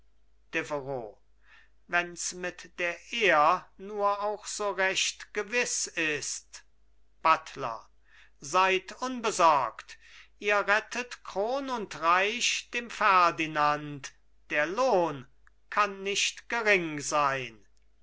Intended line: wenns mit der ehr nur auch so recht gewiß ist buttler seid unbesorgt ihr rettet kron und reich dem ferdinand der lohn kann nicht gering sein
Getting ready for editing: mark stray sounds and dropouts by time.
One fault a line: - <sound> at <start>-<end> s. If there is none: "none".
none